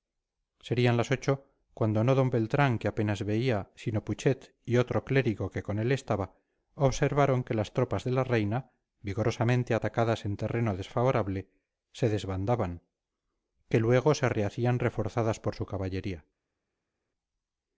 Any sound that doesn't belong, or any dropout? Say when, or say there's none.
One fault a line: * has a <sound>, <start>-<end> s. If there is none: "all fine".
all fine